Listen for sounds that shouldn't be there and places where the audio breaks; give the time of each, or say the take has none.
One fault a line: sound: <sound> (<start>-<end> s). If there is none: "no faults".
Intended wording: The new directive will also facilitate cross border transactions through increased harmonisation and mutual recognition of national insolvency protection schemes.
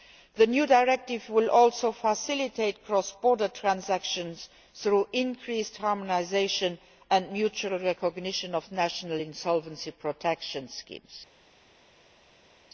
no faults